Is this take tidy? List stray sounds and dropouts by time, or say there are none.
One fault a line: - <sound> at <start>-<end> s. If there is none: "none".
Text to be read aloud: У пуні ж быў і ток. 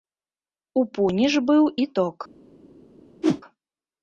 - whoosh at 3.2-3.4 s